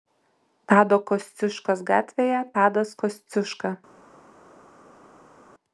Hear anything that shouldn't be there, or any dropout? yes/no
no